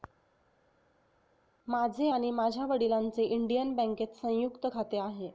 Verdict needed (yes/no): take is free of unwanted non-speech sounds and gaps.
yes